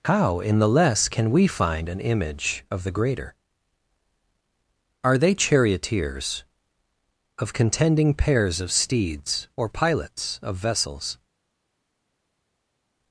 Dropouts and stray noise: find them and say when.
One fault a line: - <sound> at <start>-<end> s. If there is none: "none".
none